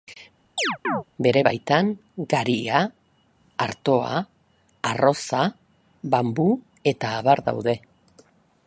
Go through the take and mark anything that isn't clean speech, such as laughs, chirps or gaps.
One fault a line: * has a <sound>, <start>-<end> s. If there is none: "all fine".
* has a chirp, 0.6-1.0 s